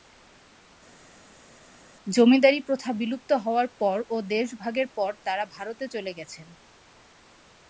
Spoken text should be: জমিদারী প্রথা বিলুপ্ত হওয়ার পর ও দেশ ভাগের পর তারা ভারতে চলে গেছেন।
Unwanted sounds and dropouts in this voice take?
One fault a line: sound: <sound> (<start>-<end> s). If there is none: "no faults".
no faults